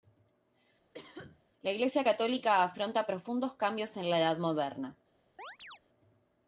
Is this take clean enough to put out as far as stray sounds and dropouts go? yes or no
no